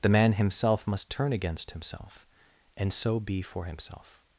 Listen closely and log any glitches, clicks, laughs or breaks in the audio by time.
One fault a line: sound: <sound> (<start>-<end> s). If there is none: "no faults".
no faults